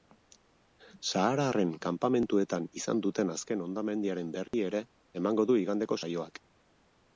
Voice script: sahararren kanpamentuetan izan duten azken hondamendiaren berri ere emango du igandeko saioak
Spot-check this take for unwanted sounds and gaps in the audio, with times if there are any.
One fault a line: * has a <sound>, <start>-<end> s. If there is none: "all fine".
* has a dropout, 4.5-4.5 s